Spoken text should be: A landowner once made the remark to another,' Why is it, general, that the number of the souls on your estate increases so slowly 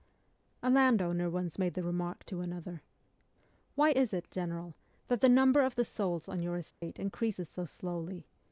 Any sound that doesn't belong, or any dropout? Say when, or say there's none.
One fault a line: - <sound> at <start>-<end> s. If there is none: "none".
- dropout at 6.7-6.8 s